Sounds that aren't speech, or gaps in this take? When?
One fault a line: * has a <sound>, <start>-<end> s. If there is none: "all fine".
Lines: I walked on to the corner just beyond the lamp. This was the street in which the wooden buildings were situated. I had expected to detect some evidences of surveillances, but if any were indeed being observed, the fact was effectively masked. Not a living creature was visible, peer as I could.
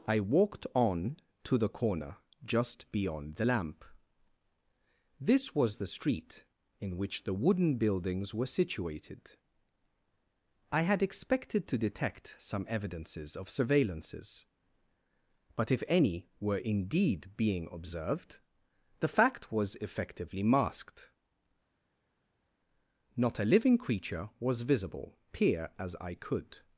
all fine